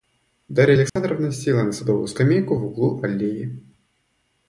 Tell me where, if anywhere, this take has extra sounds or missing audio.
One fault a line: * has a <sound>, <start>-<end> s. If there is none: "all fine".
* has a dropout, 0.9-1.0 s